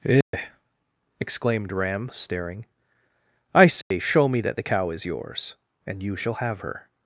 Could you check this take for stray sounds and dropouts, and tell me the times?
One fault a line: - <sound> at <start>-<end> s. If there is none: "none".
- dropout at 0.2-0.3 s
- dropout at 3.8-3.9 s